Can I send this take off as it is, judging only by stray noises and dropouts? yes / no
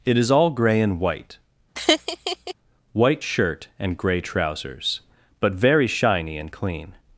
no